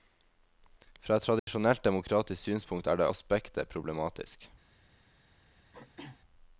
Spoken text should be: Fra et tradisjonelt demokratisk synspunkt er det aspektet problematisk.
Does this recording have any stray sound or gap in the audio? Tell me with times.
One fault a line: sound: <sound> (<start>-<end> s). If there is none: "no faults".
sound: dropout (1.4-1.5 s)
sound: throat clearing (5.7-6.2 s)